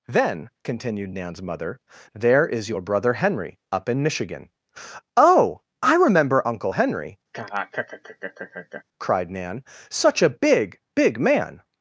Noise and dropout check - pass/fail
fail